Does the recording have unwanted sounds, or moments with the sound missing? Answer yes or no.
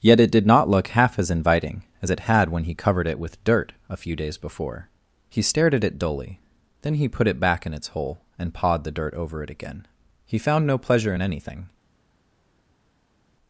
no